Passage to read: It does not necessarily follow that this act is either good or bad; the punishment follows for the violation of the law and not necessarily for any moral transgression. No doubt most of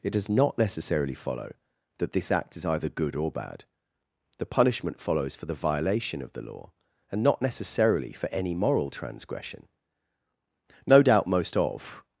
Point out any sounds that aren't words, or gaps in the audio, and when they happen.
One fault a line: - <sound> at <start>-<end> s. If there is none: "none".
none